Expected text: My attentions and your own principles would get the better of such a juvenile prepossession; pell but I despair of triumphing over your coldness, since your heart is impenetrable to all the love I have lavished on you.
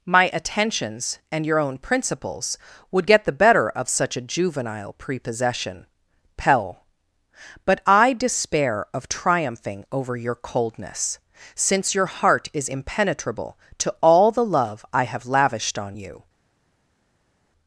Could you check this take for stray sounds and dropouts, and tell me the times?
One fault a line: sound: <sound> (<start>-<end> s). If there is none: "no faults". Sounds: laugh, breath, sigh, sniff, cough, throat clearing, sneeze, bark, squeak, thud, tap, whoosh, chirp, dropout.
no faults